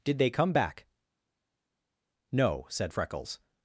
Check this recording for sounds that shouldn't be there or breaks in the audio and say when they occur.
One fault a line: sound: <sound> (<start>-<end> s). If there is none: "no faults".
no faults